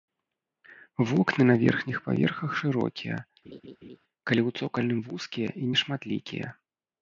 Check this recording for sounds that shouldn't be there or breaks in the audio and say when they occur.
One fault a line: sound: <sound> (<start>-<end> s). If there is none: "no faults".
sound: laugh (3.4-4.0 s)